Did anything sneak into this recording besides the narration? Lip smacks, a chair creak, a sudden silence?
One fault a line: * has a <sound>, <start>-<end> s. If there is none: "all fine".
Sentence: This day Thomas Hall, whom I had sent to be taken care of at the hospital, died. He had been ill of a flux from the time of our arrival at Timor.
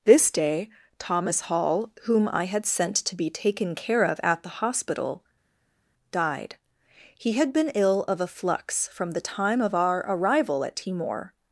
all fine